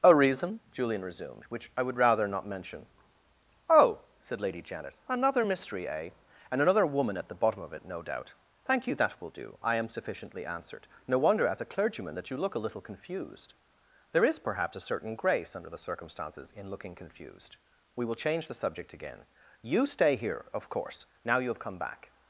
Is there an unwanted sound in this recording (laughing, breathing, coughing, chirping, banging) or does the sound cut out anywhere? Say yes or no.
no